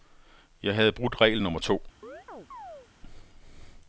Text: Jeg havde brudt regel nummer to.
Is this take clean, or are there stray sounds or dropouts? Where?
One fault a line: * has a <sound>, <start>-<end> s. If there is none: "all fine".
* has a chirp, 2.0-2.9 s